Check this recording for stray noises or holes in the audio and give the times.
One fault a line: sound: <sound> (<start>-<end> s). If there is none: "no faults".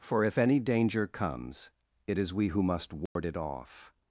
sound: dropout (3.1-3.2 s)